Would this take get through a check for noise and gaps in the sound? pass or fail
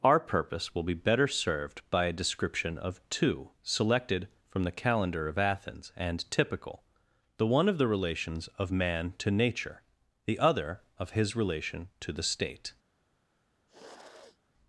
fail